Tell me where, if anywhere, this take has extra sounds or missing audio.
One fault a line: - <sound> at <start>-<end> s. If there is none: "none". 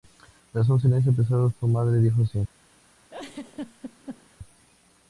- laugh at 3.1-4.4 s